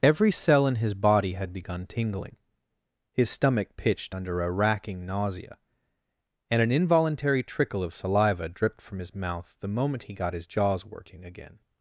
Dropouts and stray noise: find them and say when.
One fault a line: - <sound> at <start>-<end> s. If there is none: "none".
none